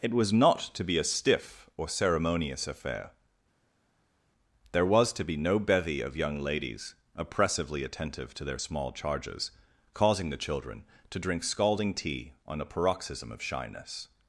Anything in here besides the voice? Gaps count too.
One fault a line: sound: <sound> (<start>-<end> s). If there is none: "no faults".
no faults